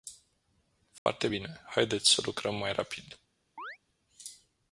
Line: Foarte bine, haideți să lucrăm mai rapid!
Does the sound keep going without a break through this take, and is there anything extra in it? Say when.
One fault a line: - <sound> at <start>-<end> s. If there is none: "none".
- dropout at 1.0-1.1 s
- chirp at 3.6-3.8 s